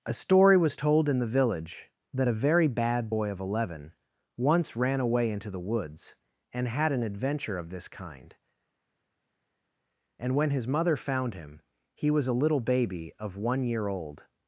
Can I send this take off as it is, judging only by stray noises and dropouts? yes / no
yes